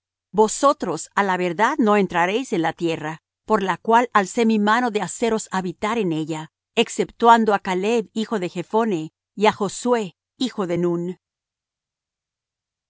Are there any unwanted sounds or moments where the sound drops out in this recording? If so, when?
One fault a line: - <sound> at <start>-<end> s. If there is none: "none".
none